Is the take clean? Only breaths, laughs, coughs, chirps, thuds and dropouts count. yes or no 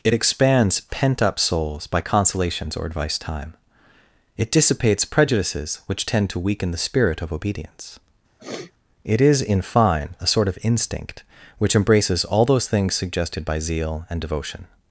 no